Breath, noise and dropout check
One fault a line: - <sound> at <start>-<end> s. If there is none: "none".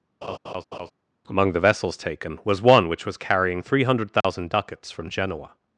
- laugh at 0.2-0.9 s
- dropout at 4.2-4.2 s